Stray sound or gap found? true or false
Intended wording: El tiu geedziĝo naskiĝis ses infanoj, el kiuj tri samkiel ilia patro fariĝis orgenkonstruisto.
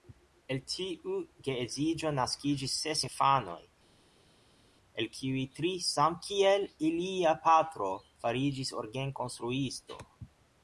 false